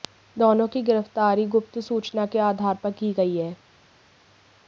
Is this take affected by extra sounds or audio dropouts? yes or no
no